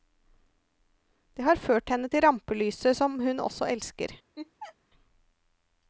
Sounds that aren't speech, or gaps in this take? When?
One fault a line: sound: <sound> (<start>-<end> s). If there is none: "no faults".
sound: laugh (4.4-4.8 s)